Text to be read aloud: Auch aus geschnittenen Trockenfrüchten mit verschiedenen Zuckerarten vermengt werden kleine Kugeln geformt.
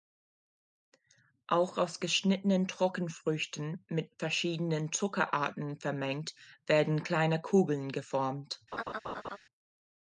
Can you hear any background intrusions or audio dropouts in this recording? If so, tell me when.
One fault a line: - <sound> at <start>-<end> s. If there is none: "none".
- laugh at 8.7-9.4 s